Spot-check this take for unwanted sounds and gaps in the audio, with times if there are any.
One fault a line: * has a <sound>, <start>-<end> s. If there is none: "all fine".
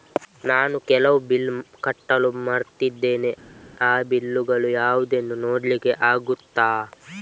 all fine